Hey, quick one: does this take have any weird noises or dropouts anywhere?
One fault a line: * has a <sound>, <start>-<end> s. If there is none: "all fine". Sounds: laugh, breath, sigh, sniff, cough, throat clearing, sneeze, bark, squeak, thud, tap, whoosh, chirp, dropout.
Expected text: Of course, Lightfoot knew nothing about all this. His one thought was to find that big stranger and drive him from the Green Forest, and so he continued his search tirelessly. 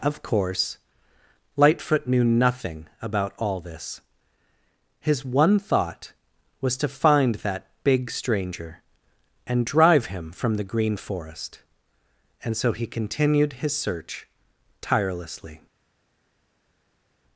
all fine